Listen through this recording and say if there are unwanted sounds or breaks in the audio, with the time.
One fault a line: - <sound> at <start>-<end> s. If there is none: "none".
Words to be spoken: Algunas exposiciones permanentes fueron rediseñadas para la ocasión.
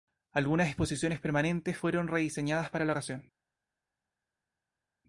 none